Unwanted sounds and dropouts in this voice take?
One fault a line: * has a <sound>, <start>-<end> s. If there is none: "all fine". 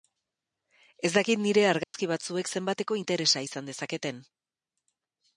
* has a dropout, 1.8-1.9 s